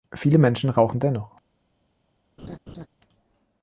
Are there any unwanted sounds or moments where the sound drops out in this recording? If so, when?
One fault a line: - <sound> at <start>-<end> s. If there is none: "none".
- laugh at 2.4-2.9 s